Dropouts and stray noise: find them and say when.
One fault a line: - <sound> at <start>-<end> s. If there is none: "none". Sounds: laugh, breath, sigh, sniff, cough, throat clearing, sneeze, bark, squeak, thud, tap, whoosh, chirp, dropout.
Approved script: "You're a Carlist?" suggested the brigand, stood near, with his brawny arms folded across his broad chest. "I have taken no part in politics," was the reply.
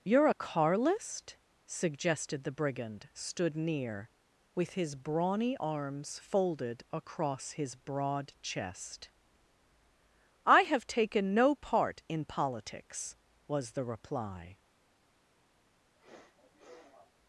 - sniff at 16.0-17.1 s